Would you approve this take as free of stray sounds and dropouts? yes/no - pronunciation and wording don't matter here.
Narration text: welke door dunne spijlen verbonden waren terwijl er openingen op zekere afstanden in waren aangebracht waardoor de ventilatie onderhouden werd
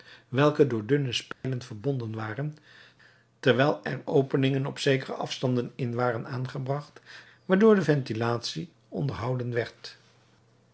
no